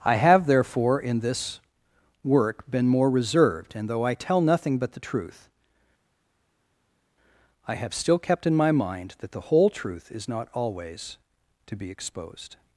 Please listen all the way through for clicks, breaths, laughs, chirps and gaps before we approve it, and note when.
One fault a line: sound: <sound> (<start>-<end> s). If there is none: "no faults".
no faults